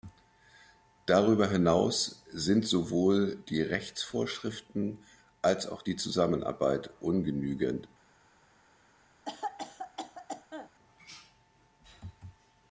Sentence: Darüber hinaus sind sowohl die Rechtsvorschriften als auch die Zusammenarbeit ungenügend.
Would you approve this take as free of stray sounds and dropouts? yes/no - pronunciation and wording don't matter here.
no